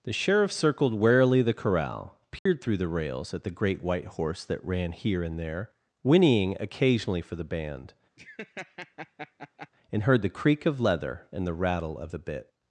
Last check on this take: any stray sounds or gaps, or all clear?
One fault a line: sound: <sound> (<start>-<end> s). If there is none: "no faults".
sound: dropout (2.4-2.5 s)
sound: laugh (8.2-9.7 s)